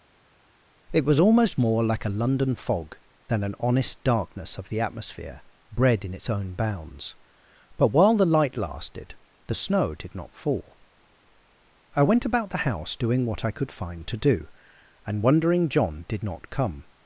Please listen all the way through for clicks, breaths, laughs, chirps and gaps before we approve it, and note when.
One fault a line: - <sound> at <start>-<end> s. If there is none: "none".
none